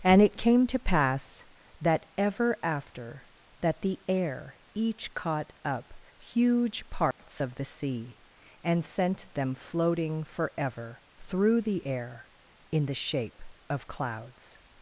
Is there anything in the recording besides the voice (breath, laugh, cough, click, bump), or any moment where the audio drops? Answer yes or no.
yes